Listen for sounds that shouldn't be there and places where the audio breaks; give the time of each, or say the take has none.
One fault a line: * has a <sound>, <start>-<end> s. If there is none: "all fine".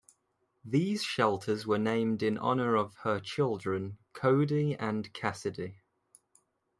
all fine